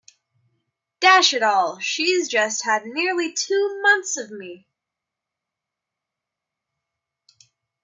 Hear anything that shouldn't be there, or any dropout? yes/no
no